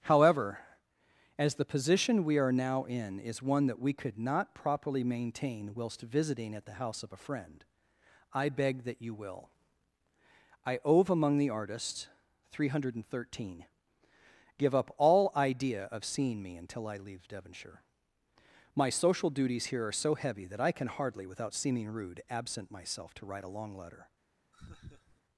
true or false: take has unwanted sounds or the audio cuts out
true